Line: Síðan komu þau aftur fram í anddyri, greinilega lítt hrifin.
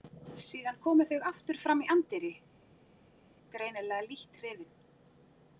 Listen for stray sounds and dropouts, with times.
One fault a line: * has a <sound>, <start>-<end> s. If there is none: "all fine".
all fine